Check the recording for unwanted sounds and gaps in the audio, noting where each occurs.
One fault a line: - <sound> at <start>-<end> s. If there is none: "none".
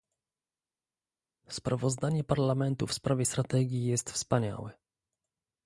none